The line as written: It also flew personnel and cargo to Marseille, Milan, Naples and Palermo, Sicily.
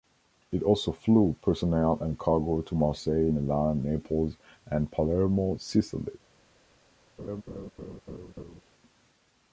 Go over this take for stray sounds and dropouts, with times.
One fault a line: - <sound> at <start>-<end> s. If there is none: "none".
- laugh at 7.2-8.6 s